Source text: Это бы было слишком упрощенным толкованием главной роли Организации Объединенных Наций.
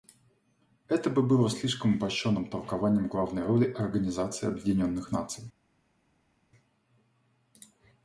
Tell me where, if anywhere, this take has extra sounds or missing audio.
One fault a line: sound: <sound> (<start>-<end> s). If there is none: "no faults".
no faults